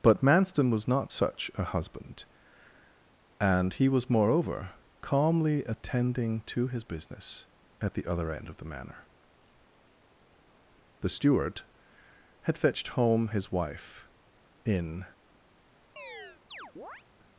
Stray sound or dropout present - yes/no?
yes